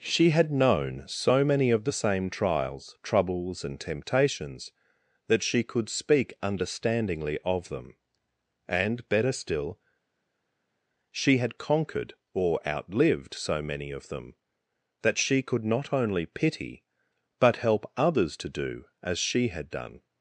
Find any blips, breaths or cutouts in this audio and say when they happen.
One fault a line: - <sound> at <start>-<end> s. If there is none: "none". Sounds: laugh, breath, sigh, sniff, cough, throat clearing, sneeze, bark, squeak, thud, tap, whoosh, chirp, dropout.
none